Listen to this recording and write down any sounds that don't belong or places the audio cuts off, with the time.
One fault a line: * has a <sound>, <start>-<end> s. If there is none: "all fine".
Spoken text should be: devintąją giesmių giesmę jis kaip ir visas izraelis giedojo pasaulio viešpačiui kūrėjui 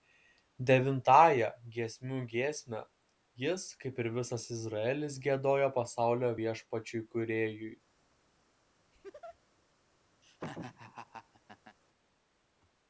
* has a laugh, 8.9-9.4 s
* has a laugh, 10.2-11.8 s